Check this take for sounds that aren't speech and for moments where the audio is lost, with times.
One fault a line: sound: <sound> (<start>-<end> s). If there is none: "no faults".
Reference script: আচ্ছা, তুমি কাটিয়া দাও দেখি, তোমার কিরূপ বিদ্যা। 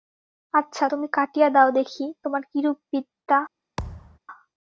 sound: thud (3.8-4.2 s)